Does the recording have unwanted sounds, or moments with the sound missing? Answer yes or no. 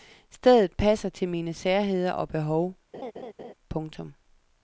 yes